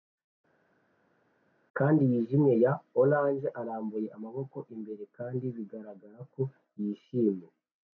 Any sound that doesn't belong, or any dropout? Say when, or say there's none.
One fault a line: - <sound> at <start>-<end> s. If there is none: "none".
none